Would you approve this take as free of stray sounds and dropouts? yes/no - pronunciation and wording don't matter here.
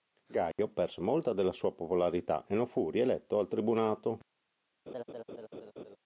no